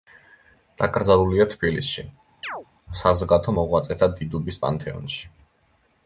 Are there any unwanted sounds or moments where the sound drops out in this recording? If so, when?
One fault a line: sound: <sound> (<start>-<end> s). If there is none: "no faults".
sound: chirp (2.4-2.7 s)